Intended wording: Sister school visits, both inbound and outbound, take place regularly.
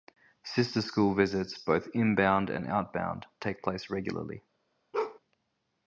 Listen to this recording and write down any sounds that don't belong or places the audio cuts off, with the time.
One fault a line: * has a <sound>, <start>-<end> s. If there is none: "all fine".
* has a bark, 4.9-5.2 s